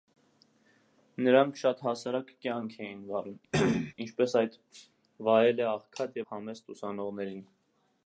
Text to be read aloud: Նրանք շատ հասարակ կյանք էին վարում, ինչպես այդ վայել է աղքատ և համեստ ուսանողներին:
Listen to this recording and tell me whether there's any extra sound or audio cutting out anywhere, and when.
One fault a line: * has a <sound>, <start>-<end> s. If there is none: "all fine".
* has a cough, 3.5-3.9 s